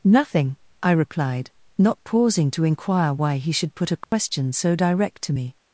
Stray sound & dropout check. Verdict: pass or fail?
fail